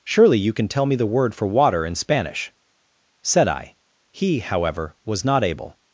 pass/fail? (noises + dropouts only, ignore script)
pass